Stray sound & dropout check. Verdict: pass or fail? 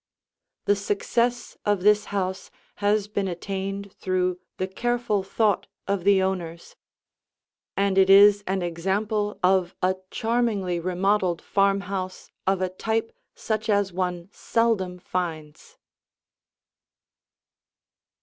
pass